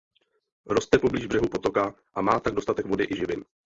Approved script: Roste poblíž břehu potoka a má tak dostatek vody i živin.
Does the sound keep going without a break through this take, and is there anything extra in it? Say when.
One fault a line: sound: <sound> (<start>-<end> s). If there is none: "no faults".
no faults